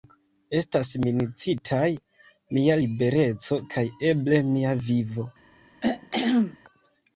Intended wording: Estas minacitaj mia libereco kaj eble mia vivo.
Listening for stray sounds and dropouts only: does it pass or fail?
fail